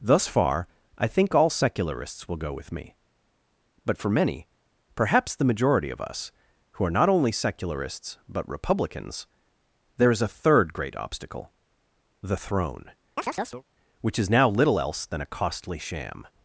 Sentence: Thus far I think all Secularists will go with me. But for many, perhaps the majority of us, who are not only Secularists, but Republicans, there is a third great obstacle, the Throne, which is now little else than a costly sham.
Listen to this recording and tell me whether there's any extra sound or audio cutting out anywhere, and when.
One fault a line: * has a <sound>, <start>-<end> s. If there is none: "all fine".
* has a chirp, 13.2-13.6 s